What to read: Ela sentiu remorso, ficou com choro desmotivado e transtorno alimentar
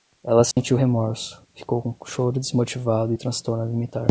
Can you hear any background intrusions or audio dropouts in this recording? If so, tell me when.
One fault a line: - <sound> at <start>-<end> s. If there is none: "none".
- dropout at 0.5-0.6 s